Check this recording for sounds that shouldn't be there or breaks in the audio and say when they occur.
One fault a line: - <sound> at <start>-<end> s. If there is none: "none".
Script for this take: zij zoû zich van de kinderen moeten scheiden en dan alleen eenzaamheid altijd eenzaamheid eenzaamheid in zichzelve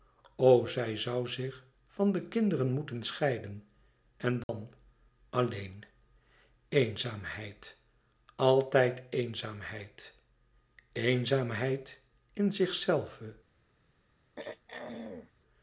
- dropout at 4.4-4.5 s
- throat clearing at 14.4-15.3 s